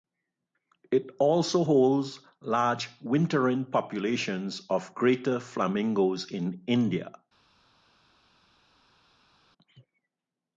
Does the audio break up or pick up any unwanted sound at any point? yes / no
no